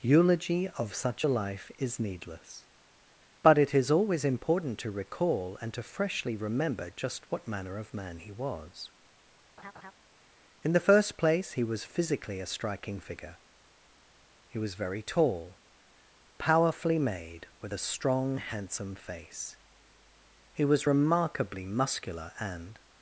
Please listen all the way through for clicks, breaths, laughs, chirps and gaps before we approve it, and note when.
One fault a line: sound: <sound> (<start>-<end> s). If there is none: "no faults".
sound: laugh (9.6-9.9 s)